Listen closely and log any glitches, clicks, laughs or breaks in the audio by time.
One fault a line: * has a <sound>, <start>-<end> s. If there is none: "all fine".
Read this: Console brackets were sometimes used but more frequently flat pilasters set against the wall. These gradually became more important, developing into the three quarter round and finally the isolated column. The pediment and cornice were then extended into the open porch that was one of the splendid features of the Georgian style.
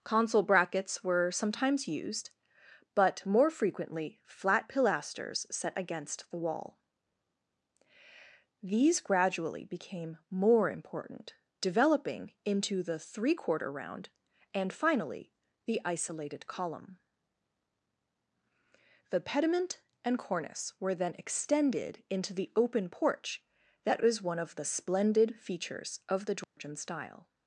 * has a dropout, 26.4-26.6 s